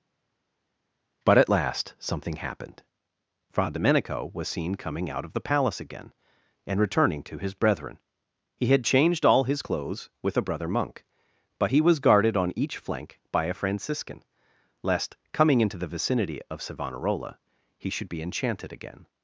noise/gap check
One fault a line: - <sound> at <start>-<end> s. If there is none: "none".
none